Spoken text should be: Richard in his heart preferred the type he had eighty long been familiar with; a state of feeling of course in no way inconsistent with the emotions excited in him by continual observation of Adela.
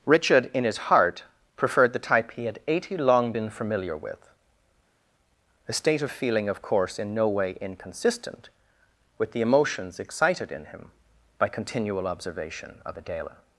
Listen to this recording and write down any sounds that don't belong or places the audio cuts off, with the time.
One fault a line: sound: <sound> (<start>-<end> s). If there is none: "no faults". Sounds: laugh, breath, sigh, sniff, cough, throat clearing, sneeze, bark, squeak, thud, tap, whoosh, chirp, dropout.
no faults